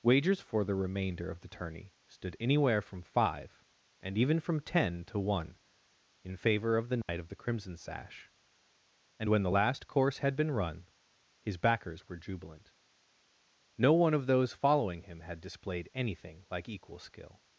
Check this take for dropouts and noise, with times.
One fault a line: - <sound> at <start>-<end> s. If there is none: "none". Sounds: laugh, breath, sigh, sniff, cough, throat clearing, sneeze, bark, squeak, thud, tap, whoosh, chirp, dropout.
- dropout at 7.0-7.1 s